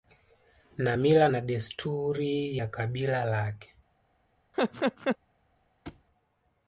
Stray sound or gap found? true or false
true